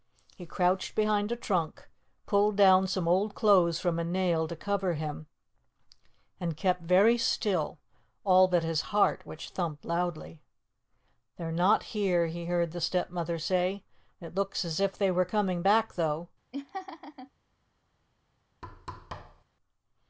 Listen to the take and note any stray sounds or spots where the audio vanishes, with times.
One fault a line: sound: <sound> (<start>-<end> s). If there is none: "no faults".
sound: laugh (16.5-17.3 s)
sound: thud (18.6-19.4 s)